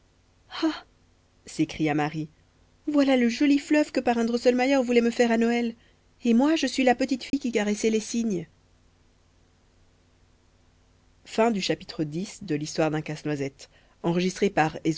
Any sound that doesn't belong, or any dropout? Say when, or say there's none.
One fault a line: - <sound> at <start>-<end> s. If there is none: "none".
- dropout at 7.3-7.3 s